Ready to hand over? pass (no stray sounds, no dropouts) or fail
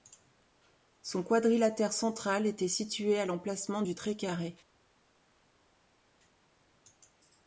pass